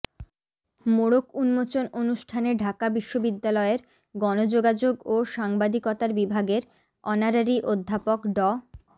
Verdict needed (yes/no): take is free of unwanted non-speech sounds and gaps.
yes